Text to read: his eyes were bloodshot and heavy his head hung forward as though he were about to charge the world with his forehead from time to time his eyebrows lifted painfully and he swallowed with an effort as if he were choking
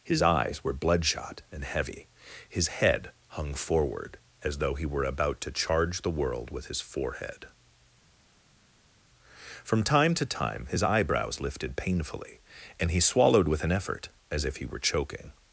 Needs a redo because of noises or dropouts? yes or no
no